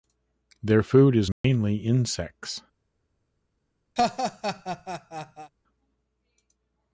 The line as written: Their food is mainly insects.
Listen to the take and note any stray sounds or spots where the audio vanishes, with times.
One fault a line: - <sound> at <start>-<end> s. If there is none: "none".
- dropout at 1.3-1.4 s
- laugh at 4.0-5.5 s